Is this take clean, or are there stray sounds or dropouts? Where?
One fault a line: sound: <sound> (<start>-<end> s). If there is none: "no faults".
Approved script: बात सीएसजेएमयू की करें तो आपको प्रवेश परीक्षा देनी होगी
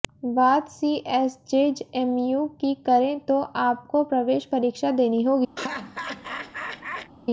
sound: laugh (5.6-7.1 s)